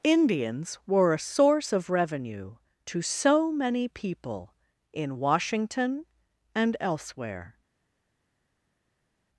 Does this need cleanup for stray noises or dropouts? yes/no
no